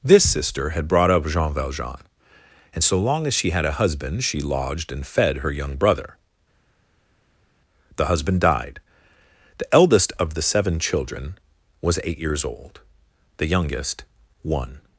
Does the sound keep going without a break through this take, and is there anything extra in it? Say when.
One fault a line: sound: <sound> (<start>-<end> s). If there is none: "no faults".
no faults